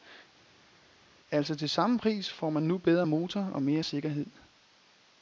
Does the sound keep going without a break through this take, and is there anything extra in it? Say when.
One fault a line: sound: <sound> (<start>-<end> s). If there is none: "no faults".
no faults